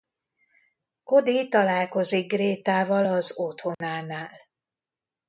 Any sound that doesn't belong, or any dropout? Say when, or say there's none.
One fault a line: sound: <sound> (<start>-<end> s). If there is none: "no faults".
sound: dropout (3.7-3.8 s)